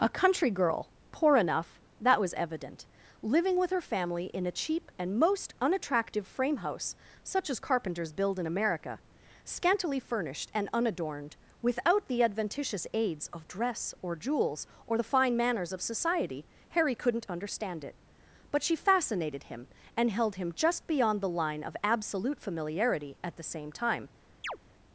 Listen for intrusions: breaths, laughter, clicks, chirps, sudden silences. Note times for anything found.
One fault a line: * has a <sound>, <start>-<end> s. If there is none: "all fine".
* has a chirp, 24.4-24.6 s